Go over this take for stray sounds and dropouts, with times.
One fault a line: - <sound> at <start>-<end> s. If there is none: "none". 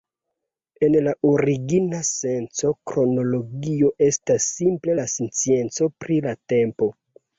none